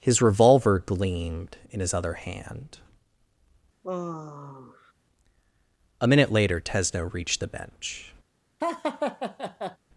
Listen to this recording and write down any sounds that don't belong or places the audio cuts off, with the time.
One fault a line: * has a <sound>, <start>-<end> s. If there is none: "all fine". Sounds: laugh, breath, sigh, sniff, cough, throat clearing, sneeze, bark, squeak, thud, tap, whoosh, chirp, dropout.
* has a sigh, 3.8-4.9 s
* has a laugh, 8.6-9.8 s